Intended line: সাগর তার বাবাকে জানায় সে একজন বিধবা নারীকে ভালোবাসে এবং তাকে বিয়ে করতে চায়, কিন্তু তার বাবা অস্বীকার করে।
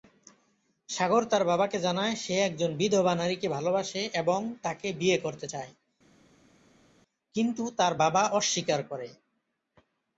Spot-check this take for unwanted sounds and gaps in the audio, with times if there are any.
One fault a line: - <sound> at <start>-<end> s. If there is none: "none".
none